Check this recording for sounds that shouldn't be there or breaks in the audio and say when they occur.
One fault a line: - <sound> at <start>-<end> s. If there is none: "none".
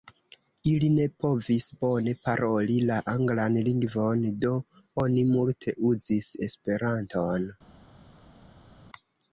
none